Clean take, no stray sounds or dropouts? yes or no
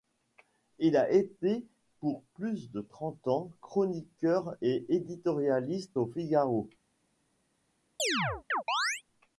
no